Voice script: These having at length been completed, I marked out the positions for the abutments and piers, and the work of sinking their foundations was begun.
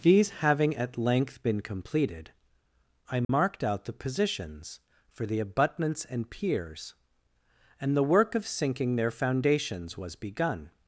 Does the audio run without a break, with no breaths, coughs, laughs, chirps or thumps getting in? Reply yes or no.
no